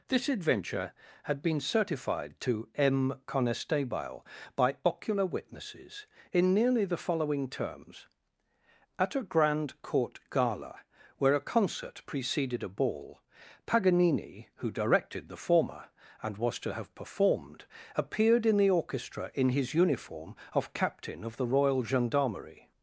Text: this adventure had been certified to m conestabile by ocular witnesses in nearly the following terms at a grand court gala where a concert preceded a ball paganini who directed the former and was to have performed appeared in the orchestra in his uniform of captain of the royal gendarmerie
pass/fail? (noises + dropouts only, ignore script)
pass